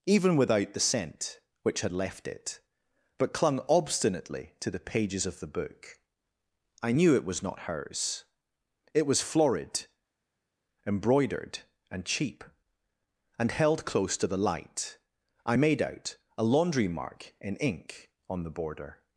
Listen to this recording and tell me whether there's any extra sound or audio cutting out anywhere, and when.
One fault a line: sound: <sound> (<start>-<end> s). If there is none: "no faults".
no faults